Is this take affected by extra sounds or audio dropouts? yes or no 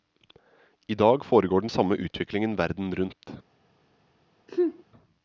yes